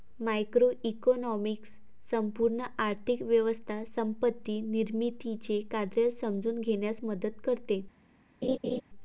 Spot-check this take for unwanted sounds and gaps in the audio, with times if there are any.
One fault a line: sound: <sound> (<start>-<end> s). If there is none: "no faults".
sound: laugh (8.4-8.8 s)